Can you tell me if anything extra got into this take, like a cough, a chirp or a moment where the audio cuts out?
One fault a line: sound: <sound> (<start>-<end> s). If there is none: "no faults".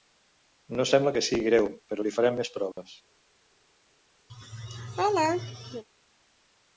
sound: dropout (2.7-2.8 s)
sound: laugh (4.3-5.8 s)